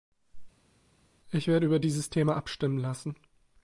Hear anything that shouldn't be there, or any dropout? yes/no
no